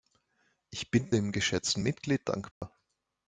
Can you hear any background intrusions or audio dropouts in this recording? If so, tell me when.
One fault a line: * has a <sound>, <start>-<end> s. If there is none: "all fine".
* has a dropout, 2.5-2.6 s